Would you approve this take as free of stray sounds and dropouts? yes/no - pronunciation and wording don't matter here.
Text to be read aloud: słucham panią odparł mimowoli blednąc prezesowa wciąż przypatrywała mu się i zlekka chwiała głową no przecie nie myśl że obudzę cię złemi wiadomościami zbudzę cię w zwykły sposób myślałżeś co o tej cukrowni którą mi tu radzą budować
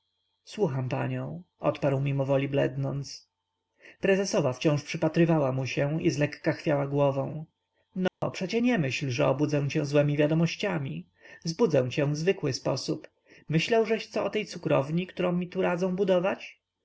no